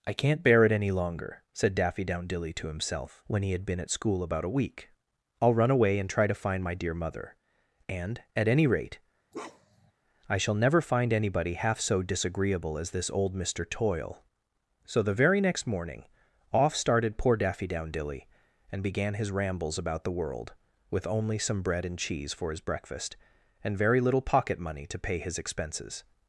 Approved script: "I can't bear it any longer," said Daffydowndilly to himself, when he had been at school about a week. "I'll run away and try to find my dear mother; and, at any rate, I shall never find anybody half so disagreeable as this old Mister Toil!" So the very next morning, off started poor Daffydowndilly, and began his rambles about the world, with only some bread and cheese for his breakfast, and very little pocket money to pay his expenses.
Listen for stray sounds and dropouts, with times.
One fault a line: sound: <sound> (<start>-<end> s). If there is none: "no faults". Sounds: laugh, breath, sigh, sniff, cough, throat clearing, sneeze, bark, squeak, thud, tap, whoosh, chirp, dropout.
sound: bark (9.3-9.9 s)